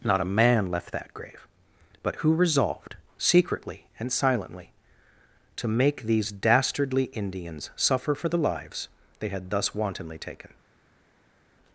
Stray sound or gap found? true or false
false